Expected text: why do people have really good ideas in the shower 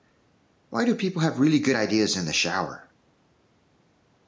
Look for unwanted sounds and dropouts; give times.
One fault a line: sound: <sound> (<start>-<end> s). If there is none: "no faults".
no faults